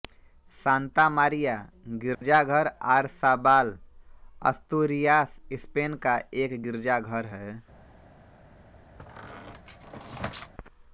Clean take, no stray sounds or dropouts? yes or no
no